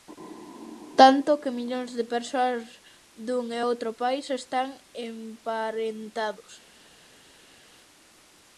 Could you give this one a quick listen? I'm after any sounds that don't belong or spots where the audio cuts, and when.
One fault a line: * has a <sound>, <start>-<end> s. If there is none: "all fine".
all fine